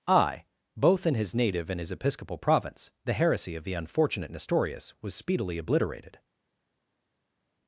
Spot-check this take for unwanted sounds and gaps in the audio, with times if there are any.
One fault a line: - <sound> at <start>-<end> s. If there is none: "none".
none